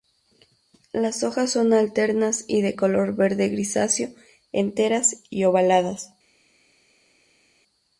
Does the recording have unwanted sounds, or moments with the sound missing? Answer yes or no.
no